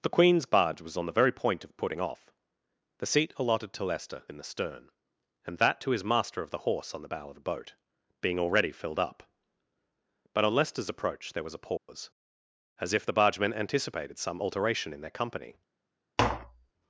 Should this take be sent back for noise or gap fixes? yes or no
yes